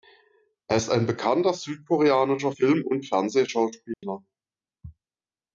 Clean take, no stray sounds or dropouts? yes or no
no